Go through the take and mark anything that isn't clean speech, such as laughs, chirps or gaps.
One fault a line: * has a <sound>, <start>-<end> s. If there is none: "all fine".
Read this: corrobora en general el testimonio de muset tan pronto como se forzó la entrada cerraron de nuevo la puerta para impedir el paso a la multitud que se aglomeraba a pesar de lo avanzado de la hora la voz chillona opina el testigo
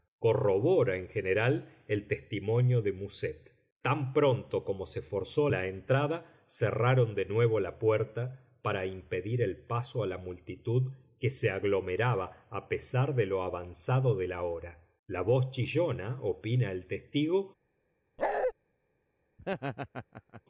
* has a bark, 18.2-18.5 s
* has a laugh, 19.4-20.4 s